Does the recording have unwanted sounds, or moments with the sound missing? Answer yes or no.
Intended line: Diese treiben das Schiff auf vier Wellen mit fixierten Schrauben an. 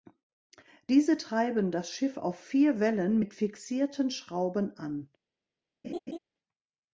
yes